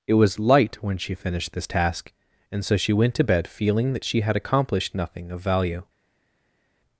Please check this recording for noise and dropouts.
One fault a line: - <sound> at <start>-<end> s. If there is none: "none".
none